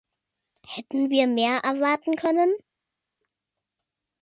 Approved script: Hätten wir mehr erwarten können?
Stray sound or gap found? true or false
false